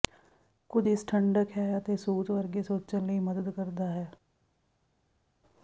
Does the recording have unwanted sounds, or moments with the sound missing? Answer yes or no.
no